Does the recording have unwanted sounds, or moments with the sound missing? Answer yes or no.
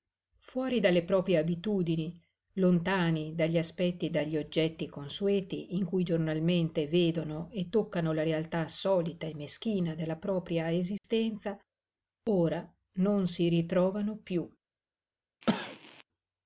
yes